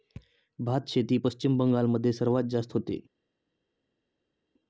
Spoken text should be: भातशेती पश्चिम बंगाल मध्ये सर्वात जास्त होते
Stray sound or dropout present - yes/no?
no